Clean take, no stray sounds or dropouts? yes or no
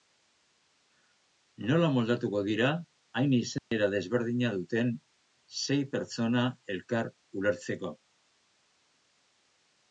no